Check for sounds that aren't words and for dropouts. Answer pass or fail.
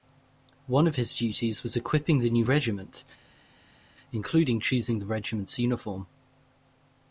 pass